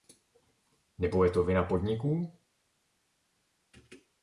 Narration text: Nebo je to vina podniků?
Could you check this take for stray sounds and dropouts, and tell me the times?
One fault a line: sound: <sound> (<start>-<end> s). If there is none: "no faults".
no faults